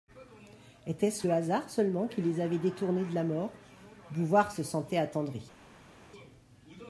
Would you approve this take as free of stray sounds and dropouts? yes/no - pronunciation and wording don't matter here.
yes